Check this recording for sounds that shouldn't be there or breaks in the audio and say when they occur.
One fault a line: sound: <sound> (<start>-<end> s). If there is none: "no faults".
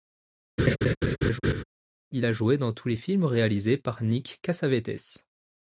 sound: laugh (0.6-1.6 s)